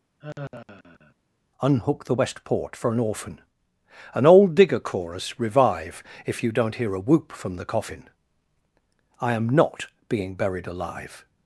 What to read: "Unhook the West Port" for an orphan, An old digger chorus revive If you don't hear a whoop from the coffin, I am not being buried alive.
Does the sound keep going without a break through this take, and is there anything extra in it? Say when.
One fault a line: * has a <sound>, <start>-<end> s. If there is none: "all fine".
* has a sigh, 0.2-1.2 s